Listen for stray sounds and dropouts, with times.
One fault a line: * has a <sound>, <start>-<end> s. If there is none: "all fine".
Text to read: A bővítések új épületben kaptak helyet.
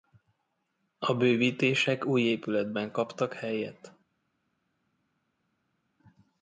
all fine